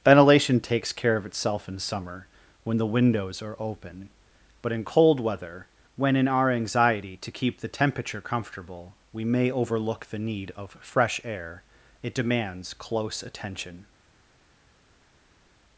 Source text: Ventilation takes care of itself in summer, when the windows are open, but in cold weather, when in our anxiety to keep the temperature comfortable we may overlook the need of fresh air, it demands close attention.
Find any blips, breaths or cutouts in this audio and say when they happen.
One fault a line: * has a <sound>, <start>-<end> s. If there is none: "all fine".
all fine